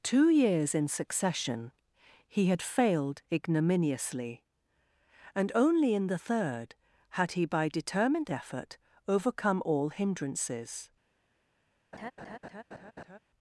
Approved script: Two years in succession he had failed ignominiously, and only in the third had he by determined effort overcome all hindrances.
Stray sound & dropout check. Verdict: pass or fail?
fail